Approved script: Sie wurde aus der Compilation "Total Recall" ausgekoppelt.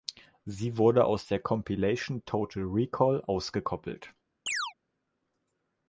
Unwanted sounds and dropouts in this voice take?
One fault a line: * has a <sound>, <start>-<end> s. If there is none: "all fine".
* has a chirp, 4.5-4.7 s